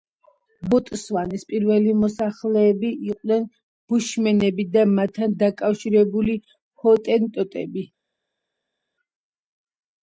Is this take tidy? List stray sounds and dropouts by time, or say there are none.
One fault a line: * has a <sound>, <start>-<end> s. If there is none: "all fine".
all fine